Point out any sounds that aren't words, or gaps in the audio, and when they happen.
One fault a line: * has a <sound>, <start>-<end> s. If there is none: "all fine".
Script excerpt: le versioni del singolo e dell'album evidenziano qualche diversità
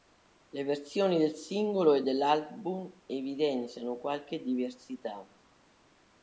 all fine